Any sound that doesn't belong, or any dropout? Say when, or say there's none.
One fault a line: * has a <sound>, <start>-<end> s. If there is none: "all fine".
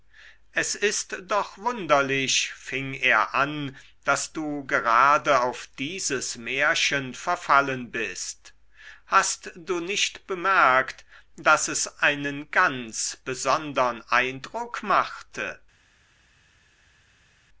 all fine